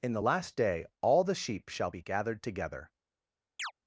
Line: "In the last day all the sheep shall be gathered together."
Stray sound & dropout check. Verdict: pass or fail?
fail